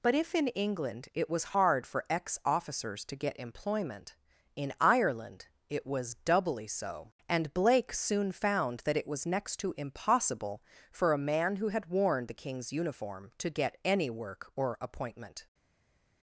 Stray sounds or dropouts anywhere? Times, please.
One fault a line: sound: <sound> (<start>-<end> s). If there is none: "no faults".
no faults